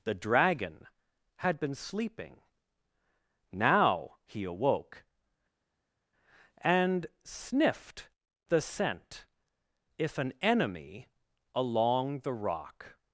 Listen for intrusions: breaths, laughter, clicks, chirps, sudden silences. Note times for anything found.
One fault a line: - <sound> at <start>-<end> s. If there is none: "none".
none